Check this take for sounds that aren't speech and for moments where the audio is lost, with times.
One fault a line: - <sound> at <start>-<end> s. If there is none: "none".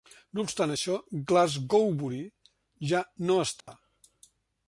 - dropout at 3.6-3.7 s